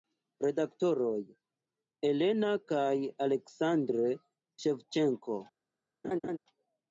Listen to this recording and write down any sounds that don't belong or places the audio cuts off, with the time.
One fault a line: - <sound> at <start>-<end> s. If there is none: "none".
- laugh at 6.0-6.4 s